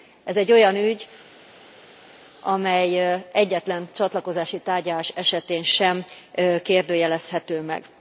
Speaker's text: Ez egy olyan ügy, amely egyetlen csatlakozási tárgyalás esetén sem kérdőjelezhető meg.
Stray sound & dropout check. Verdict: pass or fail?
pass